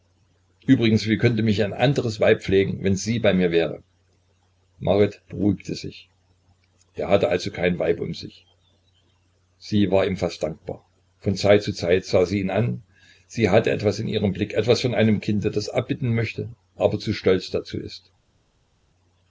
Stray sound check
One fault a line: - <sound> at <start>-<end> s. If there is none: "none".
none